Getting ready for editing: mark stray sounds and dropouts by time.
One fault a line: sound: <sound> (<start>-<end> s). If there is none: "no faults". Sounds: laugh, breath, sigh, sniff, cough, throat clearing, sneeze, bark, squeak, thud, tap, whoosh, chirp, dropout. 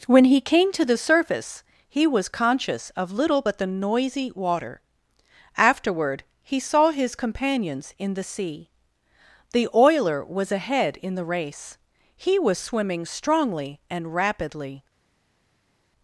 no faults